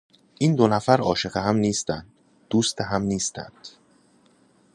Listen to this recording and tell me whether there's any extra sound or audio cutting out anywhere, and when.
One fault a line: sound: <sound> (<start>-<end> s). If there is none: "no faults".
no faults